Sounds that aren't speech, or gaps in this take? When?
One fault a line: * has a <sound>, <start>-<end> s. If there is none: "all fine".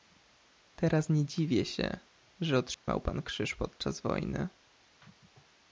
* has a dropout, 2.7-2.9 s